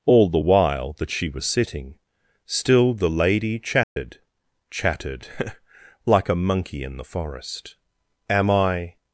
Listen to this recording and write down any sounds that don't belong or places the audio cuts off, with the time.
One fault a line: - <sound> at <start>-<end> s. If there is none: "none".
- dropout at 3.8-4.0 s